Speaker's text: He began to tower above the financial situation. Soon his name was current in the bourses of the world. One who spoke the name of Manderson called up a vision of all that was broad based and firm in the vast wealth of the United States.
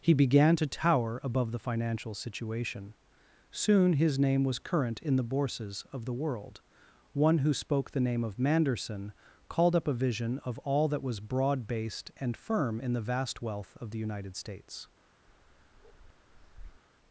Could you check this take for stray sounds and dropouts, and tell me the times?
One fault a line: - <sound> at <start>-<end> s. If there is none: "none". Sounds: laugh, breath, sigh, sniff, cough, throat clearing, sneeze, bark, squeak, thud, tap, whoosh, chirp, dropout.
- bark at 15.3-16.8 s